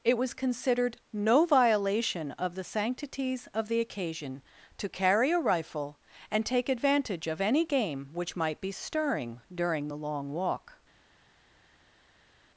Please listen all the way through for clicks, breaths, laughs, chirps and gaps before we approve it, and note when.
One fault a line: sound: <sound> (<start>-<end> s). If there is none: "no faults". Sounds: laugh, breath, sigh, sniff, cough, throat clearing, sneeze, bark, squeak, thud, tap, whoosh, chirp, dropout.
no faults